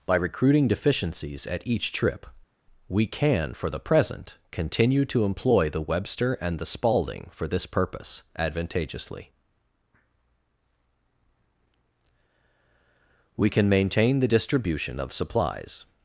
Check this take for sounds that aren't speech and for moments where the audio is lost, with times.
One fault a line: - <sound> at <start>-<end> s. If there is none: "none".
none